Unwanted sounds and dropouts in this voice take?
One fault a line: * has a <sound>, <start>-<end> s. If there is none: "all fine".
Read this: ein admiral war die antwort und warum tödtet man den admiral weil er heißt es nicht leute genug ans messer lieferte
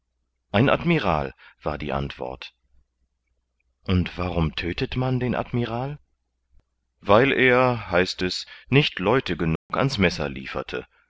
* has a dropout, 9.6-9.7 s